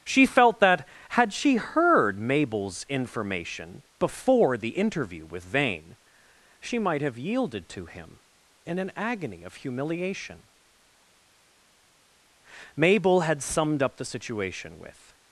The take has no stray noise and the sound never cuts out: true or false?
true